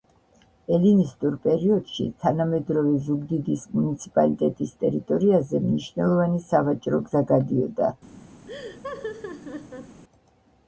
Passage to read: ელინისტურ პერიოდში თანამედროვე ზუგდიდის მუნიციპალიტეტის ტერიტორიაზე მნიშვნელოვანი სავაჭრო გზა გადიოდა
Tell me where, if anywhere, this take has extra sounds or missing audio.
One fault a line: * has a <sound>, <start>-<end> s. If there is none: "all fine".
* has a laugh, 8.5-10.0 s